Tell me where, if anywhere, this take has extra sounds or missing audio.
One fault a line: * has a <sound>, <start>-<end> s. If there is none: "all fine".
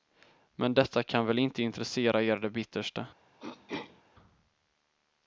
* has a throat clearing, 3.4-4.0 s